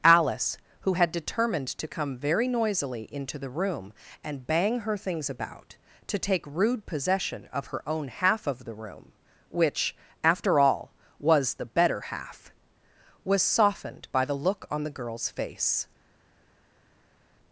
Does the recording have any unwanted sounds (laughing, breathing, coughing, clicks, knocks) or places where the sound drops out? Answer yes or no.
no